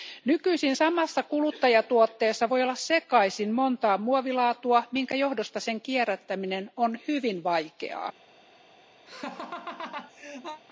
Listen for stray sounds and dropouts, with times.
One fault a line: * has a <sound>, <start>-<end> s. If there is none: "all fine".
* has a laugh, 9.1-10.6 s